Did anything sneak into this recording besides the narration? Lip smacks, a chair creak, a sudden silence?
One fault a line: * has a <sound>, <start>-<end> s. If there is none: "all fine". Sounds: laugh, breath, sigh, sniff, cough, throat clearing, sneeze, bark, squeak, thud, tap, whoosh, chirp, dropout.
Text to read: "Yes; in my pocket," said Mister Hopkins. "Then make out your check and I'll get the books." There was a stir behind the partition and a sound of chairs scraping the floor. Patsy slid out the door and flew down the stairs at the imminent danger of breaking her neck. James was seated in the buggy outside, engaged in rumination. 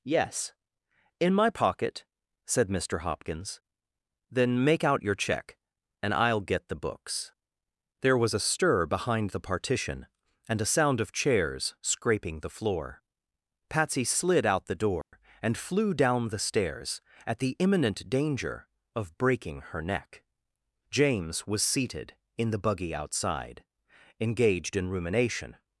* has a dropout, 15.0-15.1 s